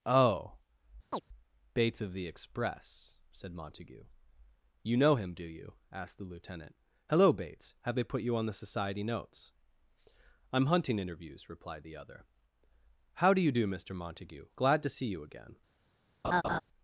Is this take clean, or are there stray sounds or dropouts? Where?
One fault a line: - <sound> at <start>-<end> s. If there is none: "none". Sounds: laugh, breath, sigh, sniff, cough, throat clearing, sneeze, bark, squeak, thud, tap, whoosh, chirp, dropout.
- chirp at 1.1-1.2 s
- laugh at 16.2-16.6 s